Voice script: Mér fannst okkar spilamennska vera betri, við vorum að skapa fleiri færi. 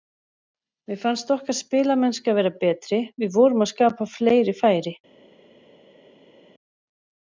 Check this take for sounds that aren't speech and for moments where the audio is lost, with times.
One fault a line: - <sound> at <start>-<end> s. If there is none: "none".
none